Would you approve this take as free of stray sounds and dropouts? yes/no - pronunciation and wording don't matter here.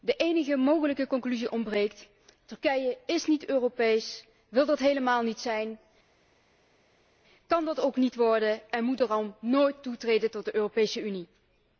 yes